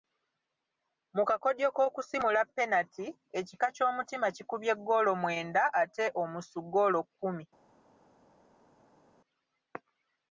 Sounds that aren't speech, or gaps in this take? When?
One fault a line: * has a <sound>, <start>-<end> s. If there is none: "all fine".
all fine